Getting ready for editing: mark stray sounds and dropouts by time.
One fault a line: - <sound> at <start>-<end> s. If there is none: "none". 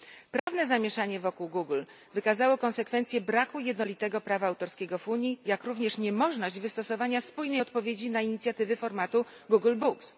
- dropout at 0.4-0.5 s